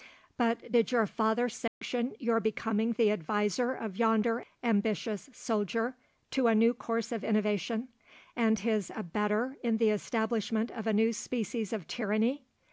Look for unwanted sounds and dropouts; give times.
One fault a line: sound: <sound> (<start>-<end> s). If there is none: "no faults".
sound: dropout (1.7-1.8 s)